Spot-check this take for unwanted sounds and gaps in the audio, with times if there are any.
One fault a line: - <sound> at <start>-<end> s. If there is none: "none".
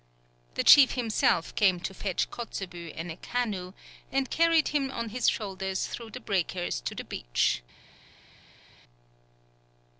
none